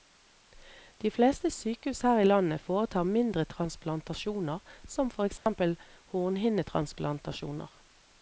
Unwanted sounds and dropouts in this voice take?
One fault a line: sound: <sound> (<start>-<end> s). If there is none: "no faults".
sound: dropout (5.4-5.5 s)